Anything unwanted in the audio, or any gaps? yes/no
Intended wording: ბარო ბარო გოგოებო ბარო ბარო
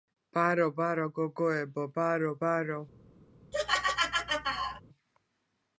yes